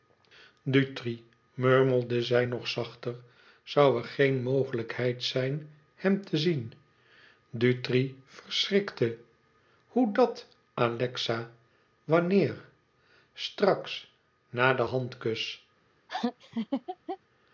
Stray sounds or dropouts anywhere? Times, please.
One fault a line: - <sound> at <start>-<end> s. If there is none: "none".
- laugh at 16.1-17.2 s